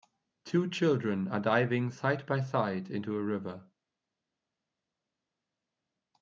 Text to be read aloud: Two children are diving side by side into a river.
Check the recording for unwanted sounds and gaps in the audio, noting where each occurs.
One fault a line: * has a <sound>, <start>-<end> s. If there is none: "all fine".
all fine